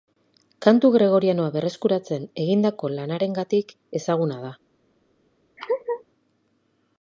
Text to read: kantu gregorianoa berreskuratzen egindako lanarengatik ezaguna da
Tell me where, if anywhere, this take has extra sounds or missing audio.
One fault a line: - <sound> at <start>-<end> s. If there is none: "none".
- laugh at 5.6-6.0 s